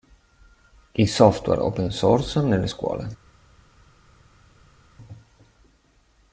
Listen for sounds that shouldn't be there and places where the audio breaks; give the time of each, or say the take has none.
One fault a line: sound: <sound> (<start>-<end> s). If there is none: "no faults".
no faults